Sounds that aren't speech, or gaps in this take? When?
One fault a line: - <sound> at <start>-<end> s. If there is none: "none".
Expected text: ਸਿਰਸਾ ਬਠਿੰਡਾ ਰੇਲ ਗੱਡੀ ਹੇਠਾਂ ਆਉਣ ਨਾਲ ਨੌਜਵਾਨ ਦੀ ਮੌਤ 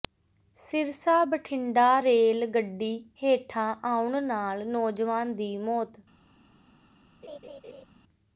- laugh at 7.2-7.8 s